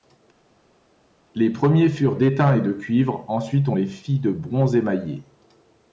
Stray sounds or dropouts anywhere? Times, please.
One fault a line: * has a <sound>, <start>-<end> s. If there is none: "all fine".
all fine